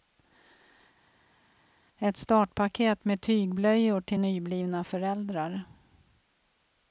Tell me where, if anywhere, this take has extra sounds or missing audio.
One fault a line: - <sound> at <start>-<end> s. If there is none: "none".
none